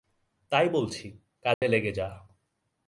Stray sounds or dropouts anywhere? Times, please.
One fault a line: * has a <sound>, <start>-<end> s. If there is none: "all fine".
* has a dropout, 1.5-1.6 s